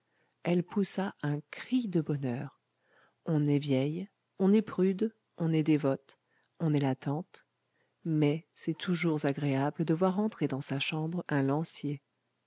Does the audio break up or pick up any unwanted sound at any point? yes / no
no